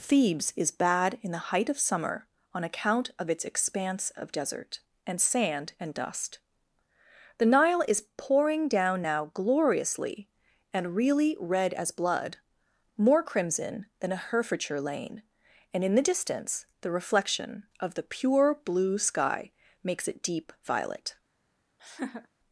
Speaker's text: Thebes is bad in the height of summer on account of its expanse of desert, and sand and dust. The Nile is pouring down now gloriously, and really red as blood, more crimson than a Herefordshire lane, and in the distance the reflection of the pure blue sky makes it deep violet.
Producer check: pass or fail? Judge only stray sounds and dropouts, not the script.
fail